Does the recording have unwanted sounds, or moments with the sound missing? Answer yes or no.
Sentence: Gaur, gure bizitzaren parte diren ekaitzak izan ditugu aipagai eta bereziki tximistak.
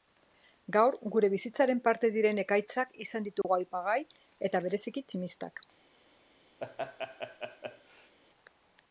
yes